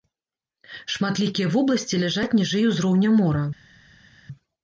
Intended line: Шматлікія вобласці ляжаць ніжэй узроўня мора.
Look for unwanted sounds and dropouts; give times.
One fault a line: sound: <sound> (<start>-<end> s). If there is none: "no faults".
no faults